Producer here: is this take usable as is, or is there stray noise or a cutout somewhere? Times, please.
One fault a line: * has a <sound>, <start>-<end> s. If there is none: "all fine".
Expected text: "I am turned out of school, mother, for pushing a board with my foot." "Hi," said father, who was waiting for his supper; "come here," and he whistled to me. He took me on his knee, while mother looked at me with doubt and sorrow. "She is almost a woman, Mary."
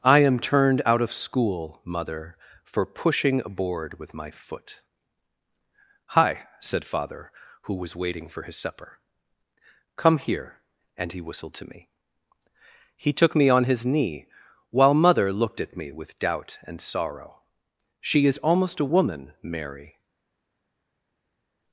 all fine